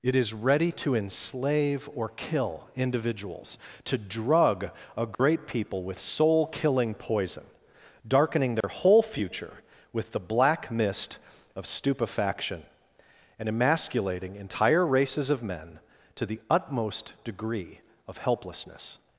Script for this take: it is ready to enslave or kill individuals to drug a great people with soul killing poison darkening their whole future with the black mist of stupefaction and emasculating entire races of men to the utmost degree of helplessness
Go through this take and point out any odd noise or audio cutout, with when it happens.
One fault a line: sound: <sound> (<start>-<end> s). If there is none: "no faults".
sound: dropout (5.1-5.2 s)
sound: dropout (8.6-8.6 s)